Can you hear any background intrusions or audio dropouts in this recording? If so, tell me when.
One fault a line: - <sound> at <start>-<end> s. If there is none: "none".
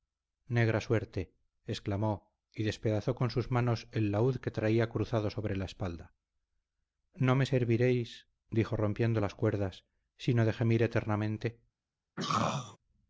- throat clearing at 12.2-12.8 s